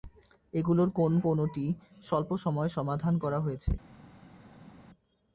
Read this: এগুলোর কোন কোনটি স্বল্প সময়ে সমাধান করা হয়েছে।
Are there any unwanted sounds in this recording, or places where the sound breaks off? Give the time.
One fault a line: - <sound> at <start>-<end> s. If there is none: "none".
none